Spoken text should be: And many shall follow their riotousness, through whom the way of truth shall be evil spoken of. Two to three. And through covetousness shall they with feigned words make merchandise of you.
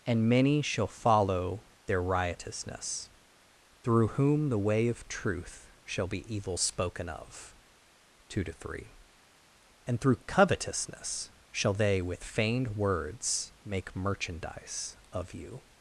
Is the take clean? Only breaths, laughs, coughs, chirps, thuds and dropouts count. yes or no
yes